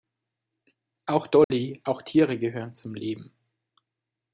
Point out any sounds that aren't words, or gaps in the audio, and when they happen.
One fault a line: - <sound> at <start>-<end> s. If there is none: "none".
- dropout at 1.4-1.5 s